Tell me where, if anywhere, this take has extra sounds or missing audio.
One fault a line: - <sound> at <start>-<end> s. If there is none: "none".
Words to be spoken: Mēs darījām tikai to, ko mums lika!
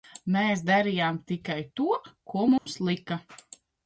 - dropout at 2.6-2.7 s